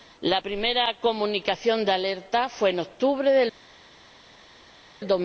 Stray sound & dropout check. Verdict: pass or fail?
pass